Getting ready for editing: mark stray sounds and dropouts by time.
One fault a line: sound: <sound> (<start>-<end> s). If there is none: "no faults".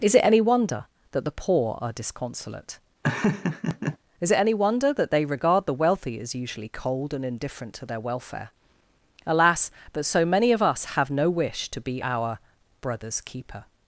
sound: laugh (3.0-4.0 s)